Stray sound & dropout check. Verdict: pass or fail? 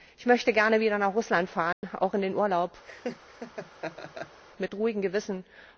fail